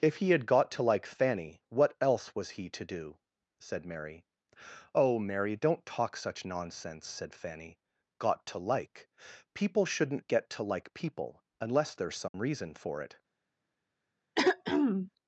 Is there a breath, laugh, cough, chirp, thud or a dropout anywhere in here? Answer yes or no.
yes